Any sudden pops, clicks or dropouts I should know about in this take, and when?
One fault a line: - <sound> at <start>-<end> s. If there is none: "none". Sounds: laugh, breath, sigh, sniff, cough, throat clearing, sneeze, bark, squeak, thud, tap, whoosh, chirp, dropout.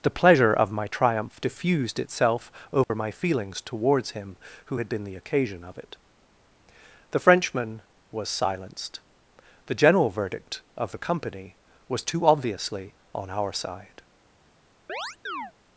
- dropout at 2.8-2.9 s
- chirp at 14.9-15.5 s